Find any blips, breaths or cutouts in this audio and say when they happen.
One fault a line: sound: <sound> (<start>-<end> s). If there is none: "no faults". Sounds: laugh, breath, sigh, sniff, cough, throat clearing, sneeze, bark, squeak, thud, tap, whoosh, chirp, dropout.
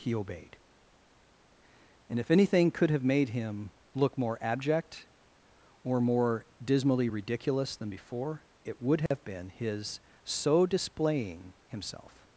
sound: dropout (9.1-9.1 s)